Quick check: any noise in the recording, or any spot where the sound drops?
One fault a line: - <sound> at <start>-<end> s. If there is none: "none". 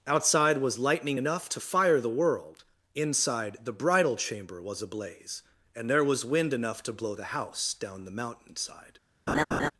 - laugh at 9.3-9.7 s